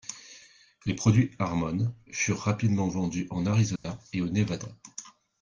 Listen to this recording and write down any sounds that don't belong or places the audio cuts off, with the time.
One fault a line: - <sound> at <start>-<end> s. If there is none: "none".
- dropout at 3.8-3.8 s